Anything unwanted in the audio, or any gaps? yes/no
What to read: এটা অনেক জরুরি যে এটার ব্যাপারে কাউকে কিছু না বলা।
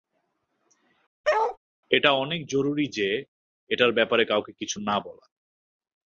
yes